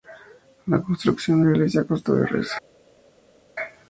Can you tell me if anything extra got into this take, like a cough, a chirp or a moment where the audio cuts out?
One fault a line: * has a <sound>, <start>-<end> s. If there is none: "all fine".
all fine